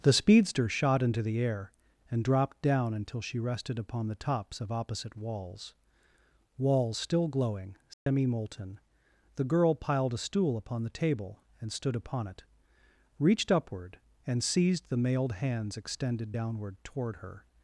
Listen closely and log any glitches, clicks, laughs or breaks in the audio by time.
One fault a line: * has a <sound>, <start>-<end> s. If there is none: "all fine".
* has a dropout, 7.9-8.1 s